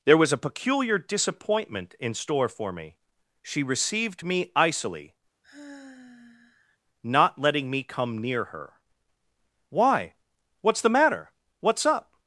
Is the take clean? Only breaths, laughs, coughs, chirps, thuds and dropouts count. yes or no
no